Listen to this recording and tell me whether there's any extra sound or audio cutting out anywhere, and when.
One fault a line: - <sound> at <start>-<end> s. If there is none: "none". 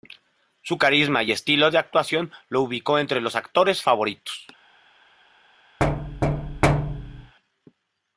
- thud at 5.8-7.3 s